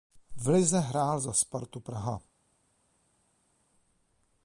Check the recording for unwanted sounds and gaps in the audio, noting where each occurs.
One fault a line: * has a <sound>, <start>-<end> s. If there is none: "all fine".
all fine